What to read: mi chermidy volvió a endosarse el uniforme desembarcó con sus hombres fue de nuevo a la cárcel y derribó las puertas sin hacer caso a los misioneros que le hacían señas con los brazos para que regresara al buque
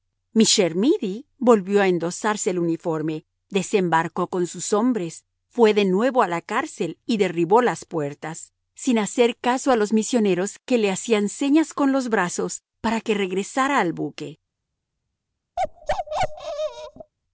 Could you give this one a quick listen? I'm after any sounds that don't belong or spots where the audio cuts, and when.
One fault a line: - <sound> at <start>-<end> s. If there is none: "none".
- bark at 15.6-17.1 s